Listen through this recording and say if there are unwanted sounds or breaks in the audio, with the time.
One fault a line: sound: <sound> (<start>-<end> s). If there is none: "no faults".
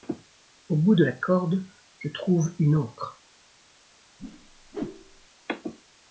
sound: whoosh (4.2-5.3 s)